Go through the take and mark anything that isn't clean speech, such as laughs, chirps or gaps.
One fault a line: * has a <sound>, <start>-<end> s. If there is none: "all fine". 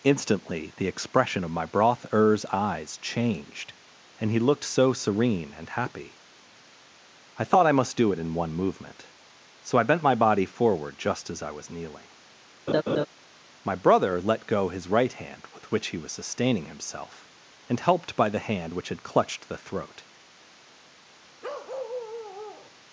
* has a laugh, 12.7-13.1 s
* has a bark, 21.4-22.7 s